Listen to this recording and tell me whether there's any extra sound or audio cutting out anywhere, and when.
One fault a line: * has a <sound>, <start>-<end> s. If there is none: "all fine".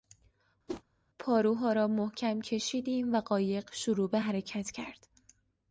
* has a whoosh, 0.7-0.8 s